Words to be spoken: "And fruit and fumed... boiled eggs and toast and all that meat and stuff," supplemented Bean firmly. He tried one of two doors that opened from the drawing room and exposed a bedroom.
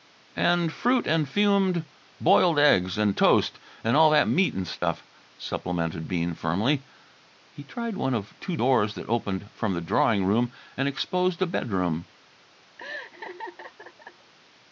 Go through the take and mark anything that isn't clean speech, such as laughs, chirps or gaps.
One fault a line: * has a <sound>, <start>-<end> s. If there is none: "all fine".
* has a dropout, 4.8-4.8 s
* has a laugh, 12.8-14.3 s